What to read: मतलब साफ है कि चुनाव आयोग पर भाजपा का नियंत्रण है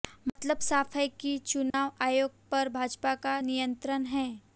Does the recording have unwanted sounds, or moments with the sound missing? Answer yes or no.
yes